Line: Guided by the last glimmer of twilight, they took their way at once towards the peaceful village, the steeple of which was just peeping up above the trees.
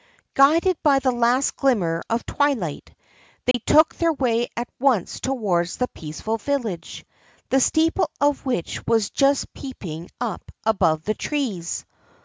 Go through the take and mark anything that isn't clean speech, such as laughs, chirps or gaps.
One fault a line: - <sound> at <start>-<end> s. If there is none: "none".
- dropout at 3.5-3.5 s